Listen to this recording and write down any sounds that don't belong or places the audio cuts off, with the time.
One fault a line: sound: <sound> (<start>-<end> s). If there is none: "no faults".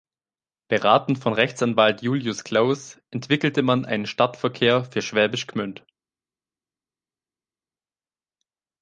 no faults